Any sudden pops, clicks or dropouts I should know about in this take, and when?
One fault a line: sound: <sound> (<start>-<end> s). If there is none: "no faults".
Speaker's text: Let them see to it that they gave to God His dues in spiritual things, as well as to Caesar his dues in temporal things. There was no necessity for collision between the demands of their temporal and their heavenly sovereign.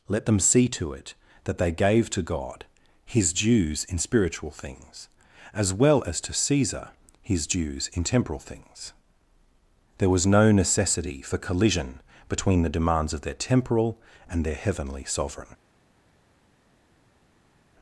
no faults